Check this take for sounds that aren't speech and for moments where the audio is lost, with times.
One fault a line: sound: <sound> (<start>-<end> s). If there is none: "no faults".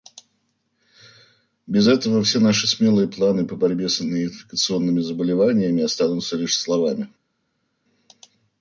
no faults